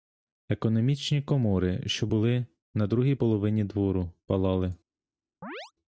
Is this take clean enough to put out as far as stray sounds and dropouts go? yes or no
no